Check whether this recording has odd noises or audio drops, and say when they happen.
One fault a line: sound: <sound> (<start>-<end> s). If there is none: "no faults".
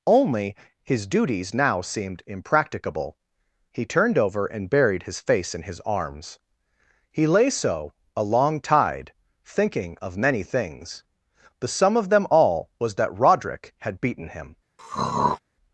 sound: throat clearing (14.8-15.4 s)